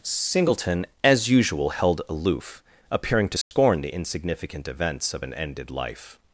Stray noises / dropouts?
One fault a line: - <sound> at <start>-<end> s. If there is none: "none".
- dropout at 3.4-3.5 s